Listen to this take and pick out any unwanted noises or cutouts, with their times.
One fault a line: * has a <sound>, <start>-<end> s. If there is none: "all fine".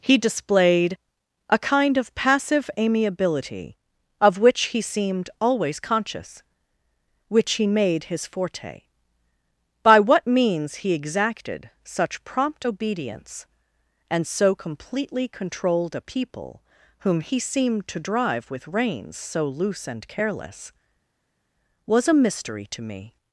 all fine